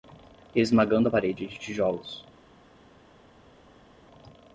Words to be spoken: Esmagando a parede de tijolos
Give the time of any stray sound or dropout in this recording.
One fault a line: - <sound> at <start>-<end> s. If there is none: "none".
none